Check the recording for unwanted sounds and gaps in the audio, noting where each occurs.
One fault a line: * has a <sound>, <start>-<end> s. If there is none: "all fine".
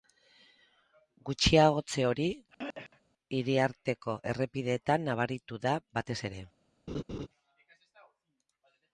* has a throat clearing, 2.5-3.0 s
* has a laugh, 6.9-7.3 s